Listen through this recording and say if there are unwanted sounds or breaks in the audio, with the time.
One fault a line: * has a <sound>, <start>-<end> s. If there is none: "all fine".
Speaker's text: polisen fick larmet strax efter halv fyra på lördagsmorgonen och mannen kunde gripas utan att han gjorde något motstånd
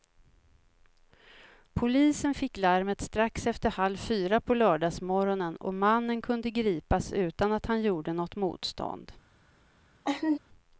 * has a laugh, 10.0-10.4 s